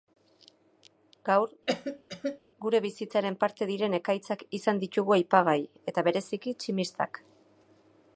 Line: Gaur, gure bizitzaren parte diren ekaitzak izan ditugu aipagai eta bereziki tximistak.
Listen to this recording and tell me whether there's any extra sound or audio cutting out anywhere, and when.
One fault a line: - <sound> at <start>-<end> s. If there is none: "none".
- cough at 1.7-2.4 s